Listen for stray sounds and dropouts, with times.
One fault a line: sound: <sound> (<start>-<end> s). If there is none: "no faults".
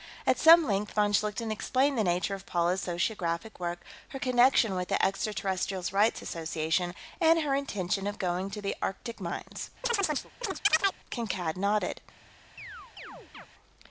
sound: chirp (9.8-11.0 s)
sound: chirp (12.6-13.5 s)